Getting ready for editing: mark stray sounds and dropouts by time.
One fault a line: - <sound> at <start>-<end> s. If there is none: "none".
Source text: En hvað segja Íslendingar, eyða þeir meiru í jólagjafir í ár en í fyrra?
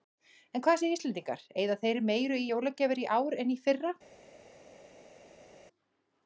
none